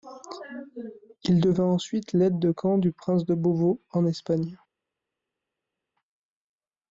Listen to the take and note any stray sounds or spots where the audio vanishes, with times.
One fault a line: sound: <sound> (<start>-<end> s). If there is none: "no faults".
no faults